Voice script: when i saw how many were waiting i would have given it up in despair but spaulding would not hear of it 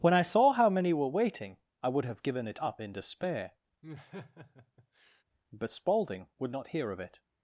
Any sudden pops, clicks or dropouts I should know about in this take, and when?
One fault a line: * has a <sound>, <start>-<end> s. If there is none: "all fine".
* has a laugh, 3.8-5.2 s